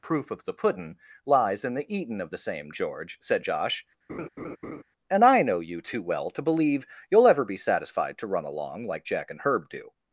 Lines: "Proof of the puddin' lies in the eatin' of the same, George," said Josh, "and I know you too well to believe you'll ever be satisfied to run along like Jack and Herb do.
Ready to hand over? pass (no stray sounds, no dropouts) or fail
fail